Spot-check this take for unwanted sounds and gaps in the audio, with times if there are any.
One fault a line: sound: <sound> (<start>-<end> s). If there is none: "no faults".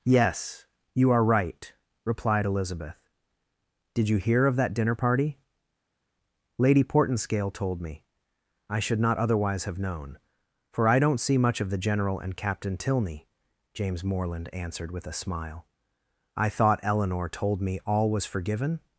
no faults